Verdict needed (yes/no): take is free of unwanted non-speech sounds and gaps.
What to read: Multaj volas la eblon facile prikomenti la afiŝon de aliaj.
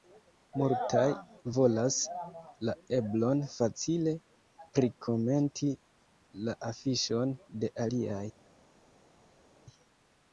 yes